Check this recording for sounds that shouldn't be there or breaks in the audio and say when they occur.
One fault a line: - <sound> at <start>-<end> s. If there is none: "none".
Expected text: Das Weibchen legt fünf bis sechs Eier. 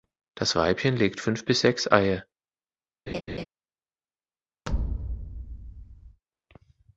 - laugh at 3.1-3.4 s
- thud at 4.7-6.2 s